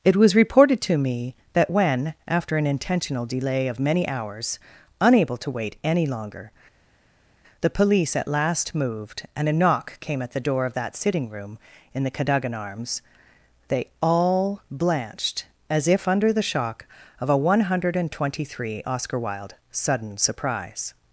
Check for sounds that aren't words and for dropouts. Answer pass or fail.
pass